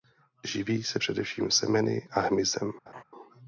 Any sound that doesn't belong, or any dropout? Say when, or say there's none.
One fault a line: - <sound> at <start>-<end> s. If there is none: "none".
- laugh at 2.9-3.0 s